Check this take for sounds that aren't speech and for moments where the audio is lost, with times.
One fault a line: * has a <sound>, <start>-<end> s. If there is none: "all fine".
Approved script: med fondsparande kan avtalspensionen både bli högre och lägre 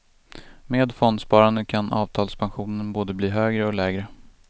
all fine